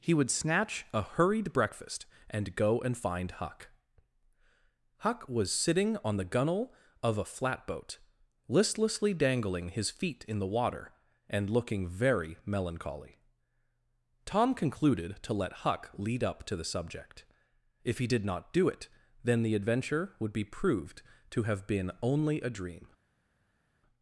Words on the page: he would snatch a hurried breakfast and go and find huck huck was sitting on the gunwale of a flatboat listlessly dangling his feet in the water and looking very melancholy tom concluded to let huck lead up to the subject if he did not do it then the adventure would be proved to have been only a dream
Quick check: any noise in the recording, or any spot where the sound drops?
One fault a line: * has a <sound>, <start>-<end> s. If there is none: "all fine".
all fine